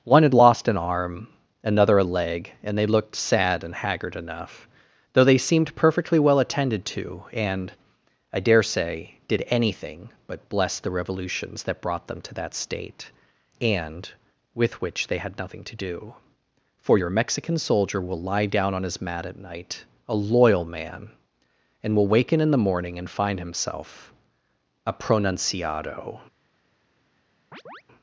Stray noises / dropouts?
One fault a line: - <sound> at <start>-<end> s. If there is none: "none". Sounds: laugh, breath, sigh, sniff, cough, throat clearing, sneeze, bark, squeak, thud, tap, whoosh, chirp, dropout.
- chirp at 27.5-27.8 s